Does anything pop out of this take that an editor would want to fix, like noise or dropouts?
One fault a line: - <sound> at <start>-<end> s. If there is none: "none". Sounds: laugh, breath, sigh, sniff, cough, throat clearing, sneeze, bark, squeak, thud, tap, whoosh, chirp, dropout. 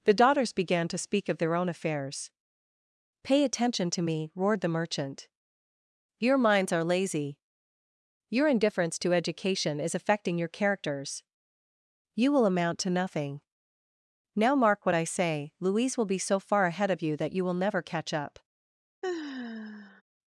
- sigh at 19.0-20.0 s